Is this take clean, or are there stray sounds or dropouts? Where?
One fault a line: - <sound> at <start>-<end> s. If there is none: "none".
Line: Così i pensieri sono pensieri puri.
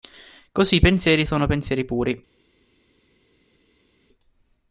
none